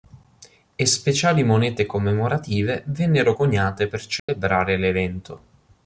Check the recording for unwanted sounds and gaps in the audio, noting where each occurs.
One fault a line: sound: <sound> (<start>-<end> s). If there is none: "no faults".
sound: dropout (4.2-4.3 s)